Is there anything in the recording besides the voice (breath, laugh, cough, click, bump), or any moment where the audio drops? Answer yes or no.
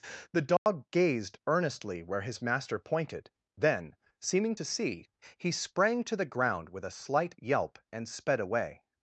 yes